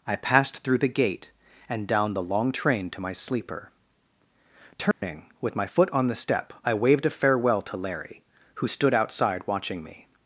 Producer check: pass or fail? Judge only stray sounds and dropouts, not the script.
fail